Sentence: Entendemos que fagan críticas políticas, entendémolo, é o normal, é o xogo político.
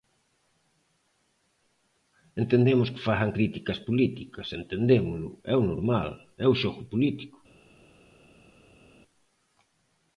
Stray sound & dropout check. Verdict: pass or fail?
pass